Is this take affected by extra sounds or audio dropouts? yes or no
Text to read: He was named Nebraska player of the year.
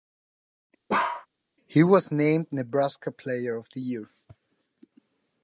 yes